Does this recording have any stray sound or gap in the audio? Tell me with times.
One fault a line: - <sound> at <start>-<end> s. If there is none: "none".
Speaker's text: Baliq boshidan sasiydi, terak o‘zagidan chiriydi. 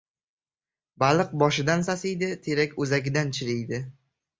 none